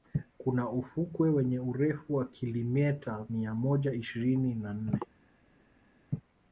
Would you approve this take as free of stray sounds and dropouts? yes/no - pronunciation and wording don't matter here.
yes